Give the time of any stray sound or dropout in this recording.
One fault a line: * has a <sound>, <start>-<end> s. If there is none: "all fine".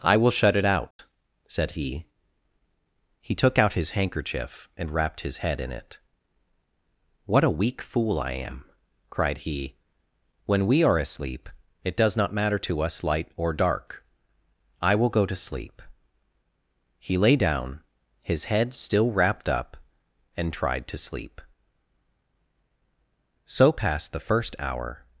* has a dropout, 0.9-1.0 s